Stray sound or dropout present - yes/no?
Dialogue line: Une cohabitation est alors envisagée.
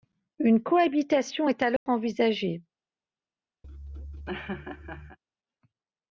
yes